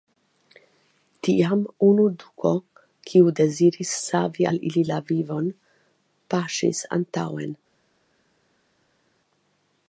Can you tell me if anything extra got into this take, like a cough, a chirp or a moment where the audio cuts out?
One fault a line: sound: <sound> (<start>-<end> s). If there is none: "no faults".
no faults